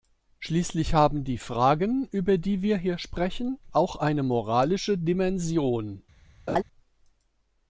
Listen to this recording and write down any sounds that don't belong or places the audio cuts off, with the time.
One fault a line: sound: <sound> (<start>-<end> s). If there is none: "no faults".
sound: laugh (6.5-6.6 s)